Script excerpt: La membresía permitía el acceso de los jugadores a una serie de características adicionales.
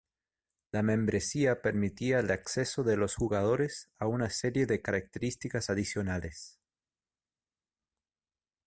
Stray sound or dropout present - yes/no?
no